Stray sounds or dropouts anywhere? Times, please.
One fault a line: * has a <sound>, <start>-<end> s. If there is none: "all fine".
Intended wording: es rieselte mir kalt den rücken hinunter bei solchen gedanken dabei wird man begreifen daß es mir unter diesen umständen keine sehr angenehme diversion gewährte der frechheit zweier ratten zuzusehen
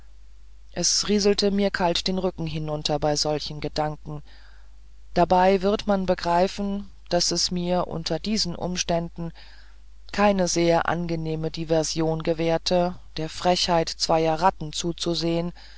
all fine